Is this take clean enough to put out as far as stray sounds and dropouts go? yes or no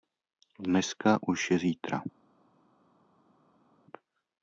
yes